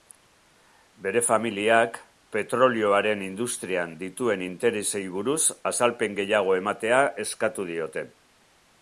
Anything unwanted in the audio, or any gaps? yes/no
no